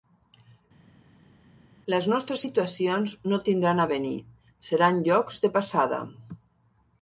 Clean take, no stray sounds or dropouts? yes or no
yes